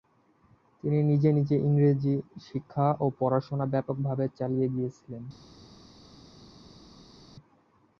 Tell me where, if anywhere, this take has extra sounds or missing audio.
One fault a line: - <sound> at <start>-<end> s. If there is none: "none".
none